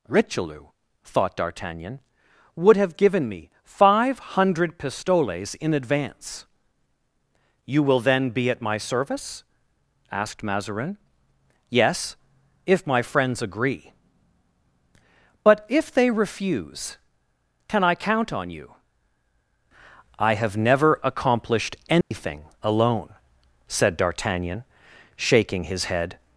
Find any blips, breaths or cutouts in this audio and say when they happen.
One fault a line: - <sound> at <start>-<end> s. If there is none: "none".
- dropout at 22.0-22.1 s